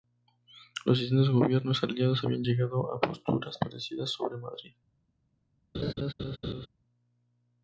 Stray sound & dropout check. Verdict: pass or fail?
fail